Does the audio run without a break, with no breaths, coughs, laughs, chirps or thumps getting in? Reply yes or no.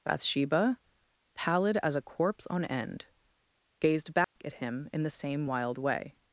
no